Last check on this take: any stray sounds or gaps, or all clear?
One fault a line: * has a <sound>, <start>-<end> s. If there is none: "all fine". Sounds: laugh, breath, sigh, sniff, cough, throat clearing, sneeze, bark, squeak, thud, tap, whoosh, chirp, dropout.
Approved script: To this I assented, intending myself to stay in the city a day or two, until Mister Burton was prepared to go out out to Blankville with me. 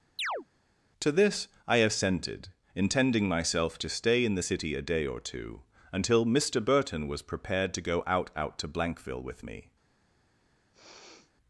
* has a chirp, 0.2-0.5 s
* has a sniff, 10.7-11.3 s